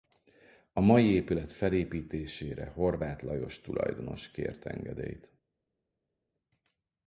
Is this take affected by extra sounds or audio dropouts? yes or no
no